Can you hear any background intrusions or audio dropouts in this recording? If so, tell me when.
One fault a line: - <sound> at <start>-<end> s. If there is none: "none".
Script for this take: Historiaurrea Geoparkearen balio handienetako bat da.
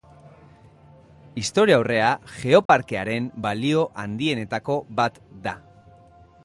- dropout at 2.7-2.7 s